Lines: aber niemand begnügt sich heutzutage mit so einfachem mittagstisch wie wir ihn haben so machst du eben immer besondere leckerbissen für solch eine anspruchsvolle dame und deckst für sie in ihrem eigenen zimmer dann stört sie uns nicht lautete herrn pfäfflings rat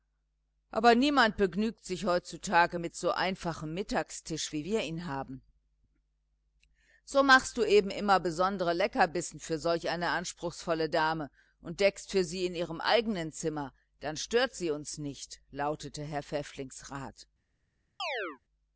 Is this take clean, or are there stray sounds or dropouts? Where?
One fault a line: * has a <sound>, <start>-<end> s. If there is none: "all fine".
* has a chirp, 18.0-18.4 s